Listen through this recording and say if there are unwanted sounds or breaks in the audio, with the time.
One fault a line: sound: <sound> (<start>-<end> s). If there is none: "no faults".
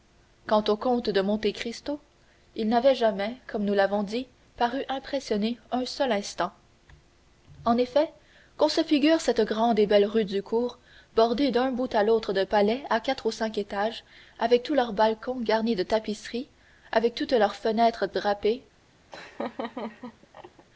sound: laugh (19.1-20.7 s)